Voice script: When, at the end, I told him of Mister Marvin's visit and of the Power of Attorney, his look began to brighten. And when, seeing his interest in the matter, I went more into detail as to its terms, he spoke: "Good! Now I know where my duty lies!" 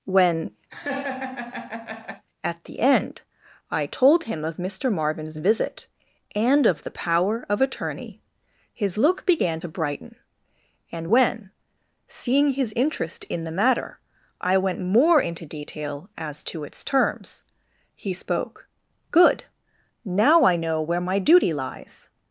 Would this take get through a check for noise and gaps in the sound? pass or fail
fail